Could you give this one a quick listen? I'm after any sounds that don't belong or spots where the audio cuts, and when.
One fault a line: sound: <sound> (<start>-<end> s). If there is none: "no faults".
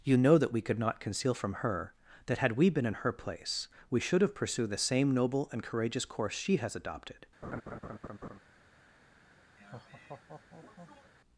sound: laugh (7.4-8.4 s)
sound: laugh (9.6-11.1 s)